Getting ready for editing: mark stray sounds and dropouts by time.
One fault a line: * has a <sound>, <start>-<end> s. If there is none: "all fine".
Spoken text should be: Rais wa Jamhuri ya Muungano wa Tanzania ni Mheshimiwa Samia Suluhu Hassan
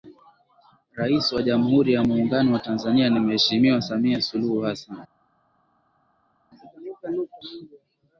all fine